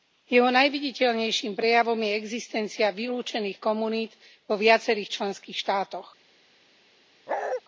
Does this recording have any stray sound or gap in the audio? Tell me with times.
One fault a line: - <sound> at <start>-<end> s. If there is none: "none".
- bark at 7.3-7.6 s